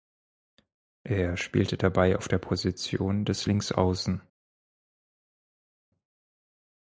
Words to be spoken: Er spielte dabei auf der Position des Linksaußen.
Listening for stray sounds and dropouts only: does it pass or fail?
pass